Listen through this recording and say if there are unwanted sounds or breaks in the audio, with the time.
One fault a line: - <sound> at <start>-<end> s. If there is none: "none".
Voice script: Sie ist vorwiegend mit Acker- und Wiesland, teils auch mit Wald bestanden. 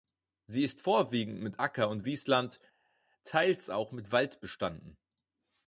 none